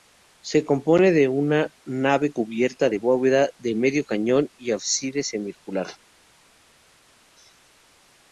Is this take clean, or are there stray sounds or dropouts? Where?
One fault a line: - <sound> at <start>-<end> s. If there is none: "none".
none